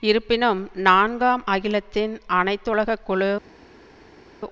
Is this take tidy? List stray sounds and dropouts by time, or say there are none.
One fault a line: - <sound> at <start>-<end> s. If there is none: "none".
none